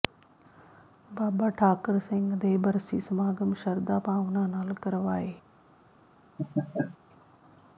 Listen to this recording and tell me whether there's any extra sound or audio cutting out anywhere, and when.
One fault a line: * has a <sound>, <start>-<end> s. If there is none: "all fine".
* has a laugh, 6.4-7.0 s